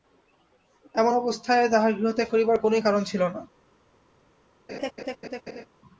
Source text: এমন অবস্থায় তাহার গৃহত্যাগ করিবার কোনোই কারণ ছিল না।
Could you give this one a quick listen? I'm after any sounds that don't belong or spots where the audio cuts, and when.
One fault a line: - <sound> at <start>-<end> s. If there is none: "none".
- laugh at 4.7-5.7 s